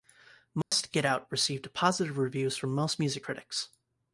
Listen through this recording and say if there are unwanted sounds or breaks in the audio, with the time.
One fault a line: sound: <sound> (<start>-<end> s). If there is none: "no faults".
sound: dropout (0.6-0.7 s)